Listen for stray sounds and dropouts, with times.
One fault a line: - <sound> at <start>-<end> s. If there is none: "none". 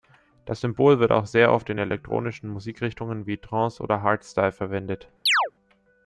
- chirp at 5.3-5.5 s